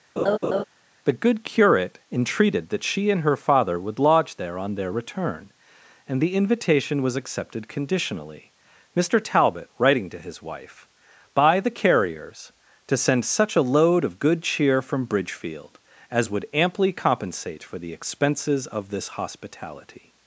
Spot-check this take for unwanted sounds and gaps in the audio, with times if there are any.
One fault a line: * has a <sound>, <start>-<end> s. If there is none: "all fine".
* has a laugh, 0.2-0.6 s